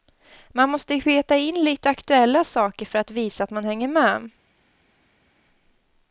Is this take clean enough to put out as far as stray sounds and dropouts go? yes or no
yes